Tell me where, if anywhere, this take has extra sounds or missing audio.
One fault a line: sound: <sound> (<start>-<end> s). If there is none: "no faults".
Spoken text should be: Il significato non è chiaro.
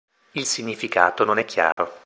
sound: dropout (1.7-1.8 s)